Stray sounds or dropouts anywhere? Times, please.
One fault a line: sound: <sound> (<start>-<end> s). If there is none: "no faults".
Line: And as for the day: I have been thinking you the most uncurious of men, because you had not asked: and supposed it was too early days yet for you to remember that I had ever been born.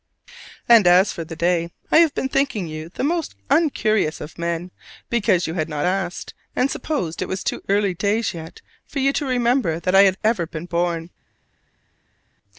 no faults